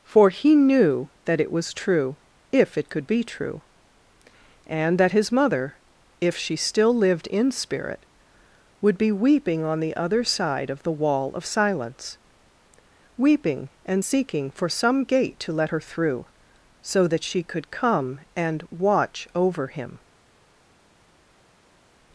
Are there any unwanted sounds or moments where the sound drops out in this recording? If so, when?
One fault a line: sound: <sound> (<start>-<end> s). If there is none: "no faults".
no faults